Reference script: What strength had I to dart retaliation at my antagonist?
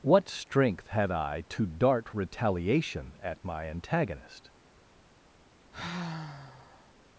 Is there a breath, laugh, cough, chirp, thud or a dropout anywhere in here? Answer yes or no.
yes